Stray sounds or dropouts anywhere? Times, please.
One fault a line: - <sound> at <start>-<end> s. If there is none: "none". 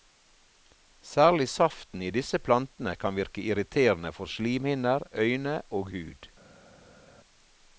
none